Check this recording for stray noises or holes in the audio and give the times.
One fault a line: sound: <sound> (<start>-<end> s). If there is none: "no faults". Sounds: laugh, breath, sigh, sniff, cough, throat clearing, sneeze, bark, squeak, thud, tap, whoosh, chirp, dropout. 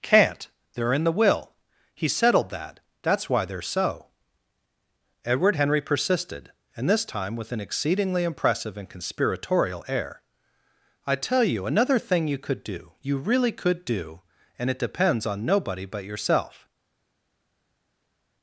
no faults